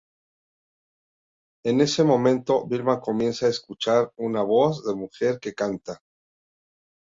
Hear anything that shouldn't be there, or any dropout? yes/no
no